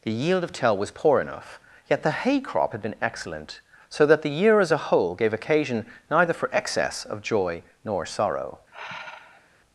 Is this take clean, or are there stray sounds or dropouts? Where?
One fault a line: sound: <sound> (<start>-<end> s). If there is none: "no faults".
sound: sigh (8.7-9.5 s)